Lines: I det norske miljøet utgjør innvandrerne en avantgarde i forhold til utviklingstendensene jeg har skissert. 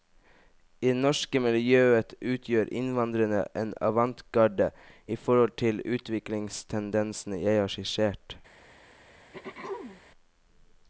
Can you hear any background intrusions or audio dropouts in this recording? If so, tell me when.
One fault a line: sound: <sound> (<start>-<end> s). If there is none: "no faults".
sound: throat clearing (9.3-10.0 s)